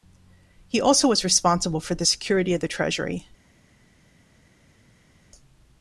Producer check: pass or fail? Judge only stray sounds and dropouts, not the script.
pass